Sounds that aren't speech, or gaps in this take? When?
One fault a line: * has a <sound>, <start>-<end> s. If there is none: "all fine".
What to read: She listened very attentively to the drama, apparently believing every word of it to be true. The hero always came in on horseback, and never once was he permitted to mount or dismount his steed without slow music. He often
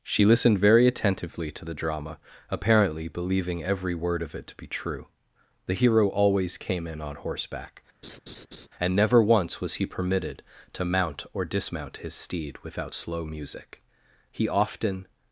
* has a laugh, 8.0-8.7 s